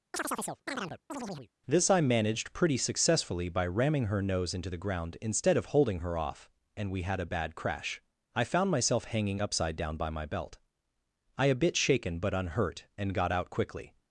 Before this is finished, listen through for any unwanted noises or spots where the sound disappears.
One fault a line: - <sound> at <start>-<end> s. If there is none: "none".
- chirp at 0.1-1.5 s